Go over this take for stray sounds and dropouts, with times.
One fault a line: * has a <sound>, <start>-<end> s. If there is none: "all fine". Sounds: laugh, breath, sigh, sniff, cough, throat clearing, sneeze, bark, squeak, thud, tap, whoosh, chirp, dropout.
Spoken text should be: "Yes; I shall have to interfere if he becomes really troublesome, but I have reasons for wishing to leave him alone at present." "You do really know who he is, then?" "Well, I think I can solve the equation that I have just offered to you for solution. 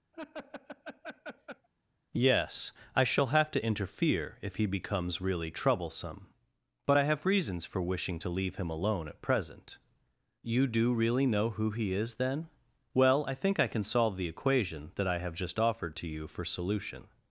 * has a laugh, 0.1-1.7 s